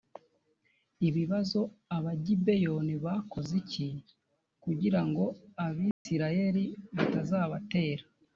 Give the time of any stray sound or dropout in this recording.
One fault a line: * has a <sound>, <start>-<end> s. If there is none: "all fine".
* has a dropout, 5.9-6.1 s